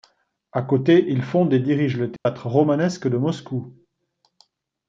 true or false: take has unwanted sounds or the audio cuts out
true